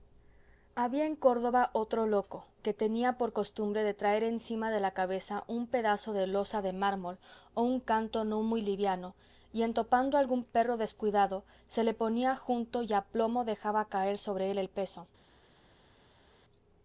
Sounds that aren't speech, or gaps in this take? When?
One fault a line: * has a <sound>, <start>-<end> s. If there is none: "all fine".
all fine